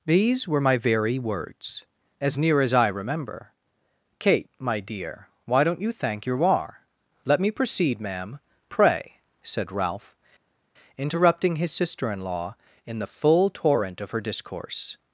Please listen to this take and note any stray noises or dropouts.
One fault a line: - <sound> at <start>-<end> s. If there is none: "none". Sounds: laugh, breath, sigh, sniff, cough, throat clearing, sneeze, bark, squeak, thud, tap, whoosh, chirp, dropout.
none